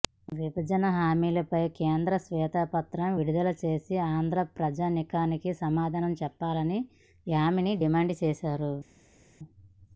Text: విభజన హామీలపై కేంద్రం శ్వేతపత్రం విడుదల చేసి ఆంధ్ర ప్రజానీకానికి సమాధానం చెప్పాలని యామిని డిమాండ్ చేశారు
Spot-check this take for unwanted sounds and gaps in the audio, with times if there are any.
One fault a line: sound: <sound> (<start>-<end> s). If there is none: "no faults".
no faults